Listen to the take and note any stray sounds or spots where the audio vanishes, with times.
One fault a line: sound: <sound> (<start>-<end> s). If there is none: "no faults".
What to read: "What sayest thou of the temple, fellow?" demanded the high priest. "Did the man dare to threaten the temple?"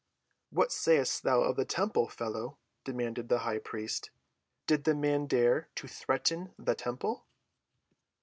no faults